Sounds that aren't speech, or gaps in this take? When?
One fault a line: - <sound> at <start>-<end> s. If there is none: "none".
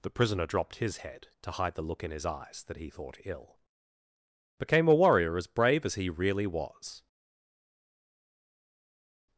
none